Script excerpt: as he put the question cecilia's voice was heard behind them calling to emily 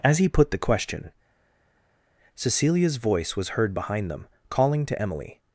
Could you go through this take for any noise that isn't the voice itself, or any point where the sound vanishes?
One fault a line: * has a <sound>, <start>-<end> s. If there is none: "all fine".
all fine